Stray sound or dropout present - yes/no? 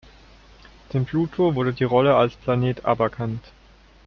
no